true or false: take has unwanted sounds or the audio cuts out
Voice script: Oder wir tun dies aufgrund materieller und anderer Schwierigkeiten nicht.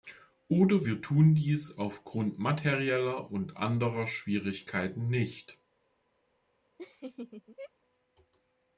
true